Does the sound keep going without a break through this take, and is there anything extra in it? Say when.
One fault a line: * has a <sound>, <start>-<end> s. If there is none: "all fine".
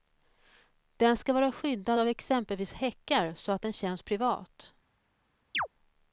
* has a chirp, 5.5-5.7 s